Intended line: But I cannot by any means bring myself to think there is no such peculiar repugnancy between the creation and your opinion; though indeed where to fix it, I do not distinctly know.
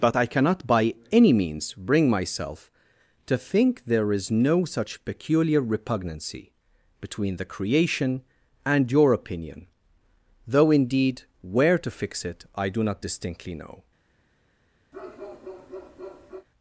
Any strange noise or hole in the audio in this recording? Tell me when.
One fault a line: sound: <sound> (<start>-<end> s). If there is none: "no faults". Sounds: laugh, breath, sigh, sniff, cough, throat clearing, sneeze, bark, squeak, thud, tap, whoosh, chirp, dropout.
sound: bark (14.9-16.5 s)